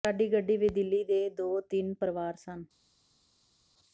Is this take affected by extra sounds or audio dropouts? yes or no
no